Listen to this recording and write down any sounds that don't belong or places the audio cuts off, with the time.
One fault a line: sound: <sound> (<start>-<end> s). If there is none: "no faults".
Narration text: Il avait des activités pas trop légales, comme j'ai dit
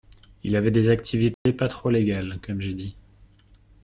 sound: dropout (1.3-1.5 s)